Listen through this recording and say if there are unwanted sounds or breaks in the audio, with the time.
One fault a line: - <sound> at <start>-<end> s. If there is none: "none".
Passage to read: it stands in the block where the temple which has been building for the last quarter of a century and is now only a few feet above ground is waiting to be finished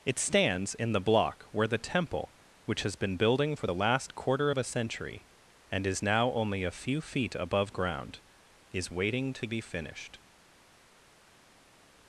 none